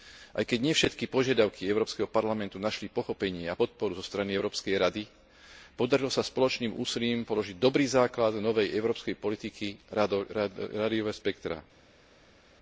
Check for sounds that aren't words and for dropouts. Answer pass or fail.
pass